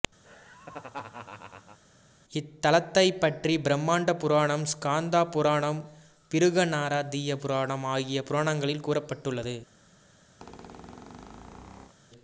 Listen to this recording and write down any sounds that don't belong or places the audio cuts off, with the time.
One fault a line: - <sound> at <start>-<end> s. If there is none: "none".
- laugh at 0.2-1.8 s
- squeak at 10.4-11.9 s